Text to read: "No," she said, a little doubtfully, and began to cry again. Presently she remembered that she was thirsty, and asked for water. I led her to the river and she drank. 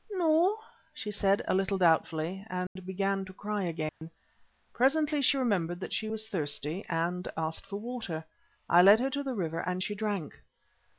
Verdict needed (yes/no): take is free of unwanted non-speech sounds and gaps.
no